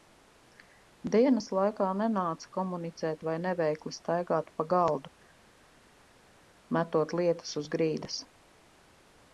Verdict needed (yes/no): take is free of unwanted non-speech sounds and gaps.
yes